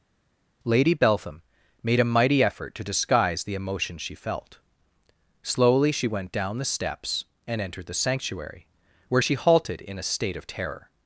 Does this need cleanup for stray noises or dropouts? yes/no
no